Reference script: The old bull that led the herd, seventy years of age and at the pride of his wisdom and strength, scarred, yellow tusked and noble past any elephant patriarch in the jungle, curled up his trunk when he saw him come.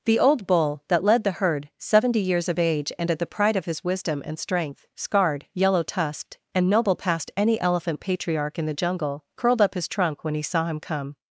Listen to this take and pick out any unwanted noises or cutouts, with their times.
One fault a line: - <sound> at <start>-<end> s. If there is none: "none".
none